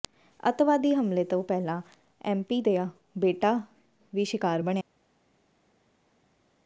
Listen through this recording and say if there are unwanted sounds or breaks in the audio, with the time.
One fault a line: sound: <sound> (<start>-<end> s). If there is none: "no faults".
no faults